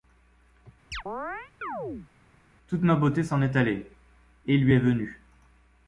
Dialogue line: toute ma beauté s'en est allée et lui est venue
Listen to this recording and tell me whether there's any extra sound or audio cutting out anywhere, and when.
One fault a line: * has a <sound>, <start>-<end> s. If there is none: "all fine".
* has a chirp, 0.9-2.1 s